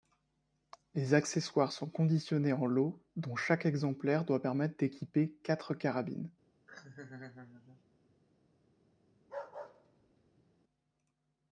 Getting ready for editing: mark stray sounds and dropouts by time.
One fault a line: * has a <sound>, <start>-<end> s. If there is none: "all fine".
* has a laugh, 6.7-7.8 s
* has a bark, 9.2-10.6 s